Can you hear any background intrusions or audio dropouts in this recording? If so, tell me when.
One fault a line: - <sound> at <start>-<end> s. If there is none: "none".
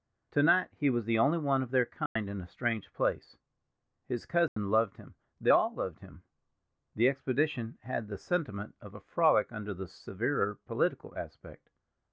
- dropout at 2.1-2.2 s
- dropout at 4.5-4.6 s